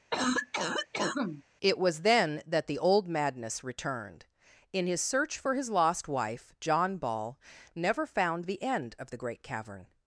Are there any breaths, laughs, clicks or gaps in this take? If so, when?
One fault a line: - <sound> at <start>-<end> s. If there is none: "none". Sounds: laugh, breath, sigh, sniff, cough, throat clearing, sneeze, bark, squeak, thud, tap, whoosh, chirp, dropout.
- cough at 0.1-1.4 s